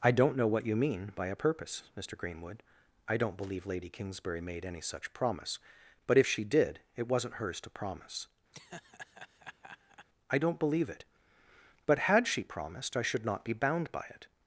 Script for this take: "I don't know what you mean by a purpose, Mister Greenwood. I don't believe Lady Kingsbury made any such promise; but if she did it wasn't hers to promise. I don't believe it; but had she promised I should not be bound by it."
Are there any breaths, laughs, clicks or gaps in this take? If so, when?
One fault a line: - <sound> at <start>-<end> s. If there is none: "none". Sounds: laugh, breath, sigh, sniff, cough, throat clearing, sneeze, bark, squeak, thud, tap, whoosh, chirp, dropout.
- laugh at 8.5-10.1 s